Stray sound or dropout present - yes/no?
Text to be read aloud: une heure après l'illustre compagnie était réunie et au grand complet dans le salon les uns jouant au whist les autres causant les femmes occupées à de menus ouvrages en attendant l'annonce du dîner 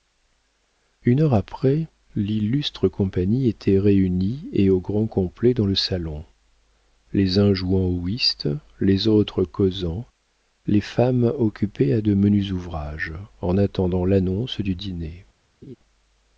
yes